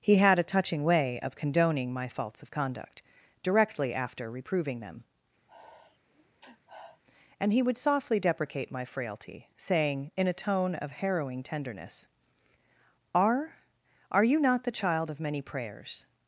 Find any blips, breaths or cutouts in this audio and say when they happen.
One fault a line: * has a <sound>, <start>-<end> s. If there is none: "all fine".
* has a sniff, 5.5-7.0 s